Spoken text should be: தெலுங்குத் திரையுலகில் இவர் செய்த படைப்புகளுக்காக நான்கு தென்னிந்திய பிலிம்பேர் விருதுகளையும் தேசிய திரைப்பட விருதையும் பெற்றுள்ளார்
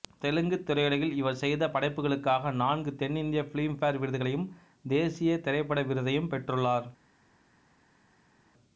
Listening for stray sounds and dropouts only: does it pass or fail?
pass